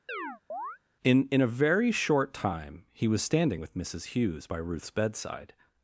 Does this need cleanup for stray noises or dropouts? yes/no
yes